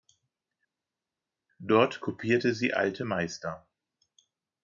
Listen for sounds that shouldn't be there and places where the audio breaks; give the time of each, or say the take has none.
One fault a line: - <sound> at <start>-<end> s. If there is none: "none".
none